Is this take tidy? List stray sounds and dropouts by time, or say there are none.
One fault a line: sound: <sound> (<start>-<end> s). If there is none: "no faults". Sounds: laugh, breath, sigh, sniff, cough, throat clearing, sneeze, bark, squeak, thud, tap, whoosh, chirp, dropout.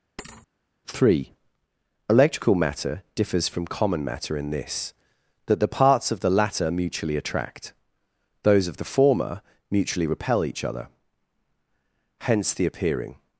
sound: thud (0.2-0.5 s)